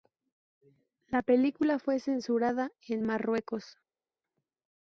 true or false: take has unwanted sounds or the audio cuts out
false